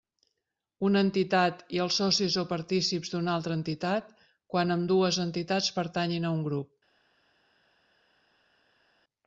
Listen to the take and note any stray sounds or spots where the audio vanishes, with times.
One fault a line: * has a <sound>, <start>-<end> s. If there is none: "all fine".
all fine